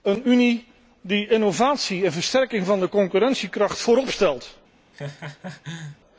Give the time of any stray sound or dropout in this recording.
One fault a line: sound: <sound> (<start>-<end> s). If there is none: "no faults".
sound: laugh (4.9-6.0 s)